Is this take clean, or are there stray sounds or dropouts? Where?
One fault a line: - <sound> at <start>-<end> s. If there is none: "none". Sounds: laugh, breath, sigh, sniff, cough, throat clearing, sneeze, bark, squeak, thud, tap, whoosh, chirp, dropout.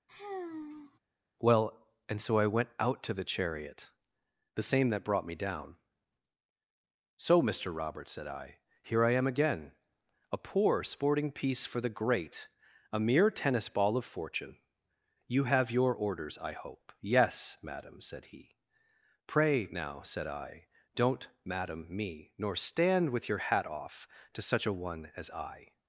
- sigh at 0.1-1.0 s